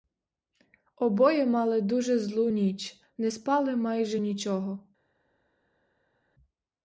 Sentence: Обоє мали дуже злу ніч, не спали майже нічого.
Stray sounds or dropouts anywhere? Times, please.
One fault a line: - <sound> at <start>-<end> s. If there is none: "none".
none